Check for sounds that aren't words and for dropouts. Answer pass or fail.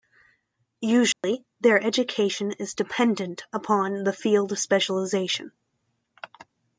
fail